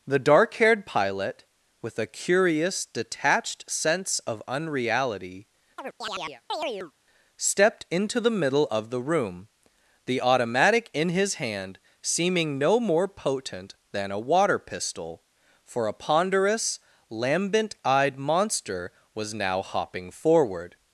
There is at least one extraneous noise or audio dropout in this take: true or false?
true